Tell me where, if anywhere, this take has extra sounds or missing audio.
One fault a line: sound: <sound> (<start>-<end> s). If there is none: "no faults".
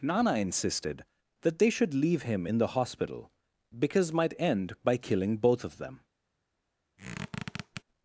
sound: squeak (7.0-7.8 s)